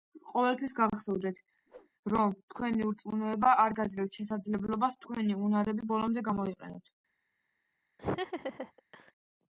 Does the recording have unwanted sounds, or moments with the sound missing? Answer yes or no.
yes